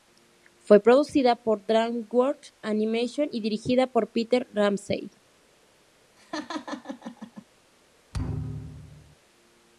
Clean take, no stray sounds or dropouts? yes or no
no